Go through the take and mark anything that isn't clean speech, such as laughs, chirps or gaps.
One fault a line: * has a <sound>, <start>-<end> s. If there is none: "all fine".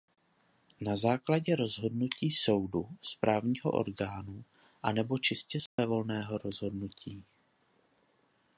* has a dropout, 5.7-5.8 s